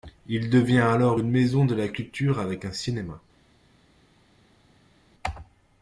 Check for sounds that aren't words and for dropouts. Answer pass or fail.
pass